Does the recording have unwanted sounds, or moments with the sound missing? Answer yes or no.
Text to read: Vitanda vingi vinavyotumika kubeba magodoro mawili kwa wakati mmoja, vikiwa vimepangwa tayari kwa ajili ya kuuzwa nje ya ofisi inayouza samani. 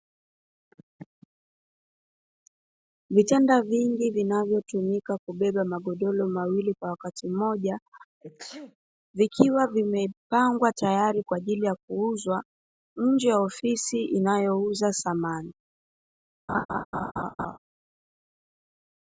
yes